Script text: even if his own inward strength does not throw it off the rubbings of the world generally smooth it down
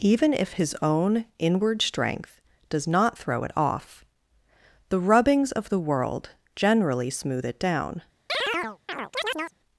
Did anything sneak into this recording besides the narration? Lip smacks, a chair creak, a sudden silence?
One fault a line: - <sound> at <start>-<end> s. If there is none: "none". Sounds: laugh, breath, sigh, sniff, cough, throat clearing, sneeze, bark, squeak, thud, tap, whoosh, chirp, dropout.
- chirp at 8.3-9.6 s